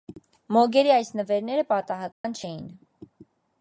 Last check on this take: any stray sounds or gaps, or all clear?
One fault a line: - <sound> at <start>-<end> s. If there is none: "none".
- dropout at 2.1-2.2 s